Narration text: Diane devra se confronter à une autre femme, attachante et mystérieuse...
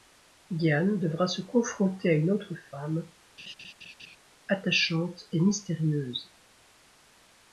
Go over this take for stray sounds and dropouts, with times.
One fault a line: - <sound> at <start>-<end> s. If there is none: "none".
- laugh at 3.4-4.2 s